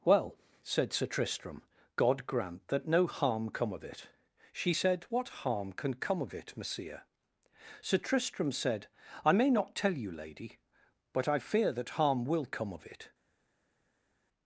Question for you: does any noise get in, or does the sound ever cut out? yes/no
no